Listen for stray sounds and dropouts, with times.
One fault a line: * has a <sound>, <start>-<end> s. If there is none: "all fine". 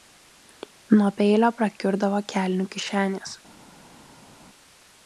all fine